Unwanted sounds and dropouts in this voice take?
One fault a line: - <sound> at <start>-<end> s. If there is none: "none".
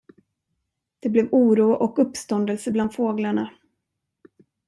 none